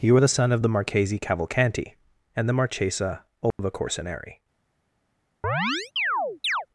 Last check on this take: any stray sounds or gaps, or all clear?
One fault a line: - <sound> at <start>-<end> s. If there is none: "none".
- dropout at 3.5-3.6 s
- chirp at 5.4-6.7 s